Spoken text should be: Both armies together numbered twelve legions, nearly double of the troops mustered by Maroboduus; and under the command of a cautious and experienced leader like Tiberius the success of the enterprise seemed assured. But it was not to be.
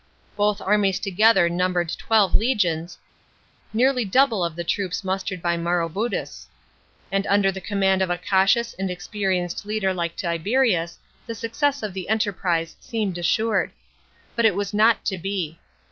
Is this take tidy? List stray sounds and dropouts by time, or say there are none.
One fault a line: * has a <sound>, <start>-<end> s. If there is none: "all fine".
all fine